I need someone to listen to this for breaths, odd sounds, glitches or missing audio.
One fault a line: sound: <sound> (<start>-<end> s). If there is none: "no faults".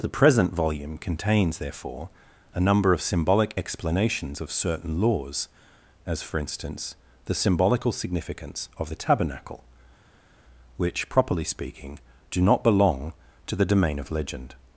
no faults